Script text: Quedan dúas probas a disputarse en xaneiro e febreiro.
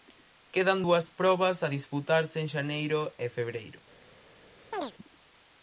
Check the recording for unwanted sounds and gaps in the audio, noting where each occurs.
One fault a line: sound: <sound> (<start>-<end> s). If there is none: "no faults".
sound: chirp (4.7-4.9 s)